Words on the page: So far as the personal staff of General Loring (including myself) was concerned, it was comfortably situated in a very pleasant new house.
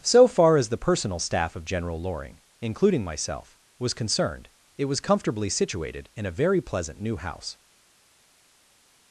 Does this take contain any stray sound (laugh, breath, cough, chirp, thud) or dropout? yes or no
no